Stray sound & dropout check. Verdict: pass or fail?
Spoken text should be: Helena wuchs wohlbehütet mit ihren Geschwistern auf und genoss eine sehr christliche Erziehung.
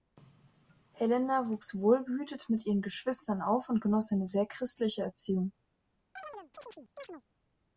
fail